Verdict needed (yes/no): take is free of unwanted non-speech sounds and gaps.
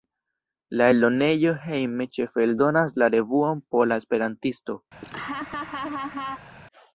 no